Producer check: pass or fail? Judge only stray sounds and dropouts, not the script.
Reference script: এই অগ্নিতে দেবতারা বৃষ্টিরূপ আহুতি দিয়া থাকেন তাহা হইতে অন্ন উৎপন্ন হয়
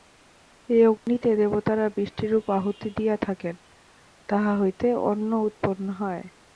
fail